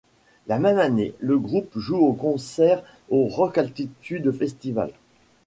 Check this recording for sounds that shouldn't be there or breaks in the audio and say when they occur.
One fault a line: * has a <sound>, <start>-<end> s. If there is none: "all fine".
all fine